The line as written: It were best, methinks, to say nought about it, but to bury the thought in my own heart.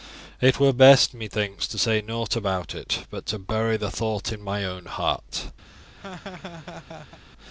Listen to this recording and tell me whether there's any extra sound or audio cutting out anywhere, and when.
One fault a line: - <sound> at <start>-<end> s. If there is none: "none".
- laugh at 5.7-7.2 s